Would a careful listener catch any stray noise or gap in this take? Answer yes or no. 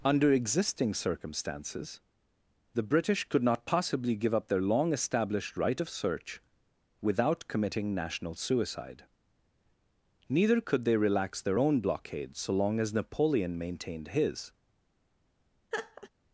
yes